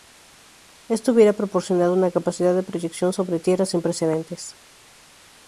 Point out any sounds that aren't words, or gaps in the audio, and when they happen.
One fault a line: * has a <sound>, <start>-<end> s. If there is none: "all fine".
all fine